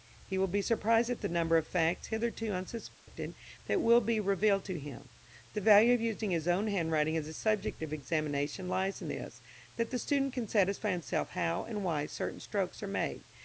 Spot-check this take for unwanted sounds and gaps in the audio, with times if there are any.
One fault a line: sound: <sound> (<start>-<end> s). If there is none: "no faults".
sound: dropout (2.9-3.1 s)